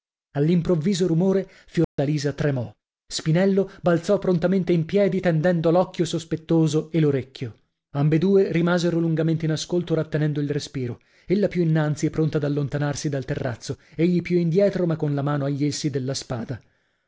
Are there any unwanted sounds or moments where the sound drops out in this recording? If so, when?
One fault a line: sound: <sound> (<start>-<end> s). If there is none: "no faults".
sound: dropout (1.8-2.0 s)